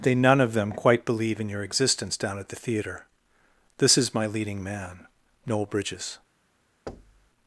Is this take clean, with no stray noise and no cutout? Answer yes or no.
no